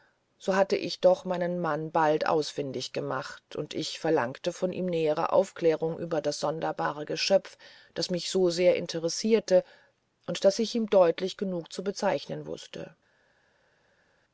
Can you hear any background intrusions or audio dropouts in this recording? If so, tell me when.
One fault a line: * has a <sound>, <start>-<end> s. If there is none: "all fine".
all fine